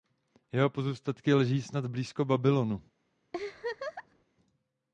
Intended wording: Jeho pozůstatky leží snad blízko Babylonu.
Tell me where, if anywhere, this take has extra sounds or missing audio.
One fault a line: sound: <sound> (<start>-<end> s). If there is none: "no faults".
sound: laugh (3.3-4.2 s)